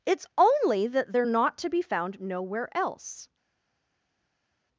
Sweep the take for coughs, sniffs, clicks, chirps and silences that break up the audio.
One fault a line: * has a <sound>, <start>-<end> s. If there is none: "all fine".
all fine